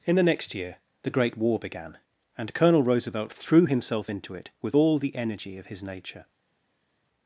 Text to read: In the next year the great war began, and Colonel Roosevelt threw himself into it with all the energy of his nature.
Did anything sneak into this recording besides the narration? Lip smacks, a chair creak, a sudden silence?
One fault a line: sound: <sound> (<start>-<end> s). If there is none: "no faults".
no faults